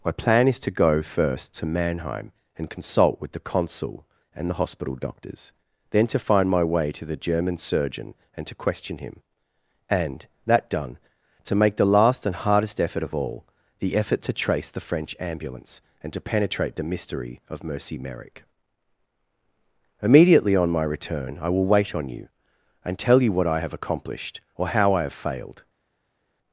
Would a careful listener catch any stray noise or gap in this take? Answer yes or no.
no